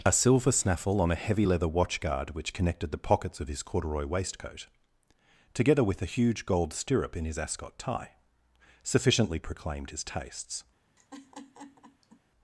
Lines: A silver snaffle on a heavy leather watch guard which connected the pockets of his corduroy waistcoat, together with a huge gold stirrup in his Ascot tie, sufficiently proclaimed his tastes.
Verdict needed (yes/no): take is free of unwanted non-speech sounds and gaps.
no